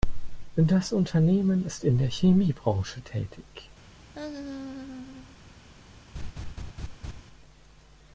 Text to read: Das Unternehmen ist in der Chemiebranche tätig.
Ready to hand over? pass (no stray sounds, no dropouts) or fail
fail